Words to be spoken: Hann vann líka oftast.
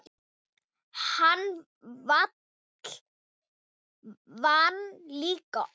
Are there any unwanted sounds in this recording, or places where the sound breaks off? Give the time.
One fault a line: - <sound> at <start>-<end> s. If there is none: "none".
none